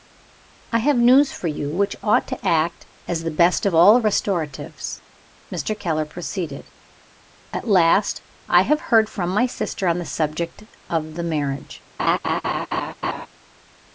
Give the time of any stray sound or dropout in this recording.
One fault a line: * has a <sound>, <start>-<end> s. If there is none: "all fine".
* has a laugh, 12.0-13.3 s